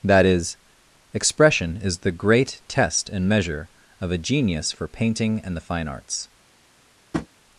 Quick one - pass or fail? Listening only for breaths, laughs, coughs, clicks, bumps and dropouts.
fail